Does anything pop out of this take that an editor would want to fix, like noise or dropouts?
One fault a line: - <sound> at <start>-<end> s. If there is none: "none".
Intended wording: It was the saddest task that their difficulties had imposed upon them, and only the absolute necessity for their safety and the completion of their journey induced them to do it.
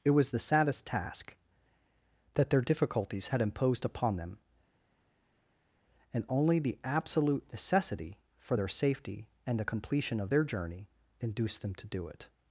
none